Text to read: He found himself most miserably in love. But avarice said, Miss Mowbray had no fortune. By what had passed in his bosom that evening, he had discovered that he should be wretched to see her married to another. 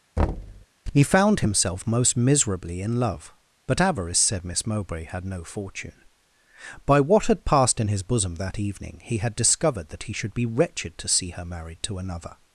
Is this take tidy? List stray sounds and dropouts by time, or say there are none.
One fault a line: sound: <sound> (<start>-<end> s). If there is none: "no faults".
sound: thud (0.2-0.7 s)